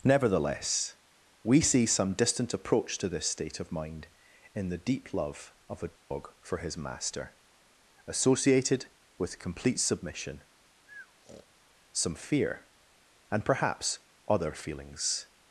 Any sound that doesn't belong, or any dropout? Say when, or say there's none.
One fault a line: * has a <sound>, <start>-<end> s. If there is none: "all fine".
* has a dropout, 6.0-6.1 s
* has a breath, 10.9-11.5 s